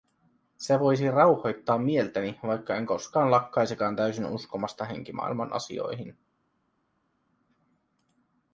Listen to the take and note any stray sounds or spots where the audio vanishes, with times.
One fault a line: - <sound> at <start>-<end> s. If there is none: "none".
none